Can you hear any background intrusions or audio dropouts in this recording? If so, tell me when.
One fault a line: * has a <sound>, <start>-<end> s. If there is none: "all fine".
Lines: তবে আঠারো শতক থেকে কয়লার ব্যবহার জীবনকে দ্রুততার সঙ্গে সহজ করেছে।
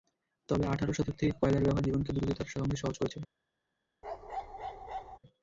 * has a bark, 4.0-5.2 s